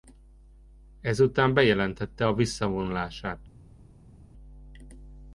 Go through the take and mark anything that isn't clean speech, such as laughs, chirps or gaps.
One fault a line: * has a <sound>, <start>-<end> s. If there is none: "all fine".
all fine